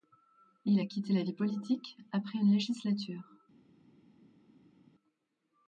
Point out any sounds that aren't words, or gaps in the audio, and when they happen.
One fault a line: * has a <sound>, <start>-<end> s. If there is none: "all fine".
all fine